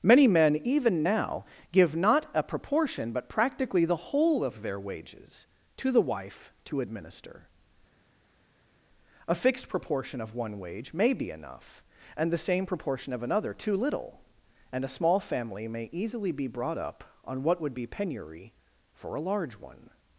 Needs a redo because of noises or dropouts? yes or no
no